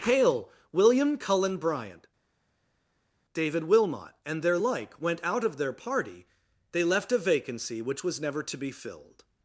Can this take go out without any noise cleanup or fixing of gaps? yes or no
yes